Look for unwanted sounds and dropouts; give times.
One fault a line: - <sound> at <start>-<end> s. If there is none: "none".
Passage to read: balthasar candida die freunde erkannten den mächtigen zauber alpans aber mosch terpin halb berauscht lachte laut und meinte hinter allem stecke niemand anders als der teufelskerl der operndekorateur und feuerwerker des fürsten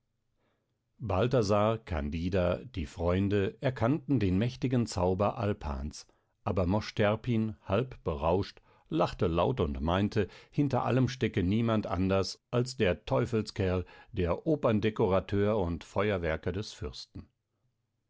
none